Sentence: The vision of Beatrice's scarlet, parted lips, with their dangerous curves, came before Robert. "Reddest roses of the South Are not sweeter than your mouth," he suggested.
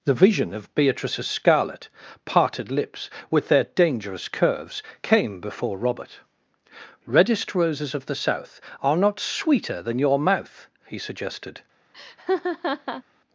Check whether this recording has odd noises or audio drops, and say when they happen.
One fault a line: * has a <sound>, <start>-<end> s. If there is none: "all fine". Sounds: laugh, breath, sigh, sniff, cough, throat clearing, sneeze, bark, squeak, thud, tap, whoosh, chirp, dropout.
* has a laugh, 11.9-13.0 s